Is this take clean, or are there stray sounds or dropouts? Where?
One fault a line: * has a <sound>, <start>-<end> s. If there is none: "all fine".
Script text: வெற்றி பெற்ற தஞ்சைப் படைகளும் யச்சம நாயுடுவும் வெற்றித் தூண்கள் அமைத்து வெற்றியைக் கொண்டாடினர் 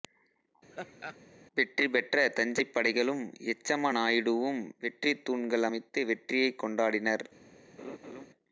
* has a laugh, 0.7-1.2 s
* has a laugh, 7.8-8.3 s